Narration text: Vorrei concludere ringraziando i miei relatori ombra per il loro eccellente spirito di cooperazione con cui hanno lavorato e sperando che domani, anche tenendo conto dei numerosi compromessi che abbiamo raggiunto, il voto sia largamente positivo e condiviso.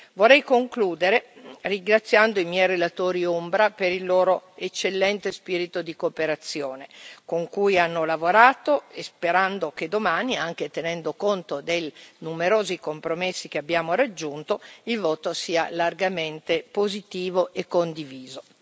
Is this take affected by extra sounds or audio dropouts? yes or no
no